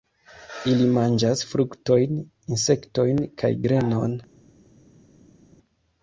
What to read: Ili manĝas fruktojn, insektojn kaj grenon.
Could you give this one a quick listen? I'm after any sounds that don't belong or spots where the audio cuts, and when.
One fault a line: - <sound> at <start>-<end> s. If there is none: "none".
none